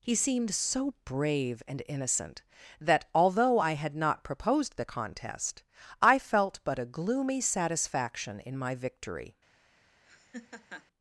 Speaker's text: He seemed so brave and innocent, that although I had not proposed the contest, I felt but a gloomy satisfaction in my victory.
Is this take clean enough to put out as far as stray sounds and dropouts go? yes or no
no